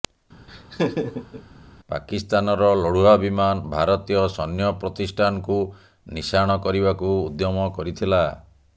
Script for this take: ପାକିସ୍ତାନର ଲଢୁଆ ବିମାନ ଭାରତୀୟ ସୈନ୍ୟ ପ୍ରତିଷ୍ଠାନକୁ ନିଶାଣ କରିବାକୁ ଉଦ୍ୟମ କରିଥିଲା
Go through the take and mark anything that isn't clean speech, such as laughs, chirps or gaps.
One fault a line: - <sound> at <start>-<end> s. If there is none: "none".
- laugh at 0.5-1.4 s